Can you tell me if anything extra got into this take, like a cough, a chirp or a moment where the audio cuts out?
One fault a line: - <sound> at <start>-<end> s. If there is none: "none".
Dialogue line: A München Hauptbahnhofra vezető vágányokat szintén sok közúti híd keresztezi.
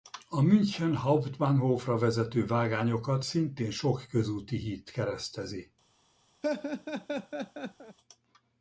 - laugh at 6.4-8.0 s